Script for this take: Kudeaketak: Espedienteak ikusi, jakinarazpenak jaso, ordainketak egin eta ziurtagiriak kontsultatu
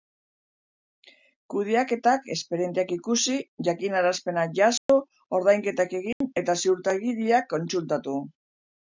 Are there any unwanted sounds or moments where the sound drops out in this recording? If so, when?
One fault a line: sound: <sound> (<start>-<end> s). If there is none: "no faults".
sound: dropout (4.8-4.9 s)
sound: dropout (6.1-6.2 s)